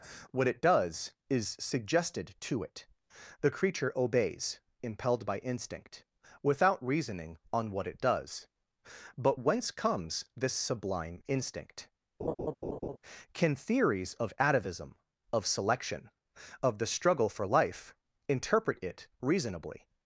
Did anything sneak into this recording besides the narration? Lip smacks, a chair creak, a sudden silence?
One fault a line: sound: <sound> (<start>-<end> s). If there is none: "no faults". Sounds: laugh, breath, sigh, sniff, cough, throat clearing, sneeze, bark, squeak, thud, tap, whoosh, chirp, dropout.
sound: laugh (12.2-13.0 s)